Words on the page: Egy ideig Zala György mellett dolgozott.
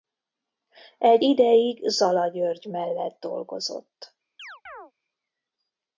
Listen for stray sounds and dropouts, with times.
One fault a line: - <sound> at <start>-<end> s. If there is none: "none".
- chirp at 4.4-4.9 s